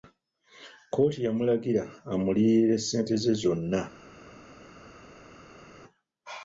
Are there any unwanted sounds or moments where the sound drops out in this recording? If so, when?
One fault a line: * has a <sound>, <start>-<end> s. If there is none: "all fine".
all fine